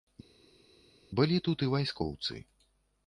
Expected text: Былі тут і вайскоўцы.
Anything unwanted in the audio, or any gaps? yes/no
no